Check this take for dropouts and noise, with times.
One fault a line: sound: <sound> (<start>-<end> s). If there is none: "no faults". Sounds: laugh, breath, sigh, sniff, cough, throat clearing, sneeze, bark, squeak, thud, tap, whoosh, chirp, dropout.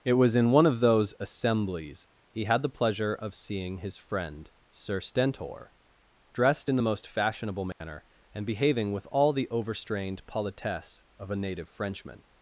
sound: dropout (7.7-7.8 s)